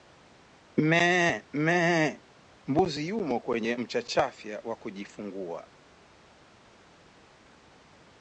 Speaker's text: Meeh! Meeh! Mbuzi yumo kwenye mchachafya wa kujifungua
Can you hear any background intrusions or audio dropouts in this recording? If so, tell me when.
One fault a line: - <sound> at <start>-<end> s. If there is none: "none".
none